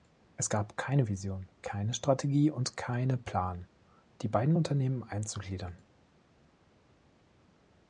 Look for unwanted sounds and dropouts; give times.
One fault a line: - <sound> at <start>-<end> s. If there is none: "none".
none